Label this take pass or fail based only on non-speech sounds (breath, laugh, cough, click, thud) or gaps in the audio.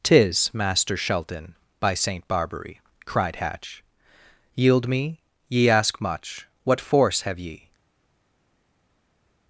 pass